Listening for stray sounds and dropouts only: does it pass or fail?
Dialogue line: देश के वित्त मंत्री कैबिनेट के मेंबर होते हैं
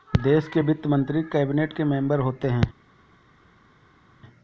pass